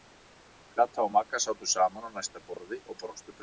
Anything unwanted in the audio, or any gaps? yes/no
yes